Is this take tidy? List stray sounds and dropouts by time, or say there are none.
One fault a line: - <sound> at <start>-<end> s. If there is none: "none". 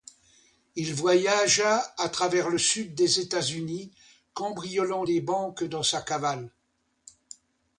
none